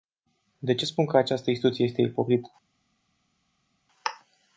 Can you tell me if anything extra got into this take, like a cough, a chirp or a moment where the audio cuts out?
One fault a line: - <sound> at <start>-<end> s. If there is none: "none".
none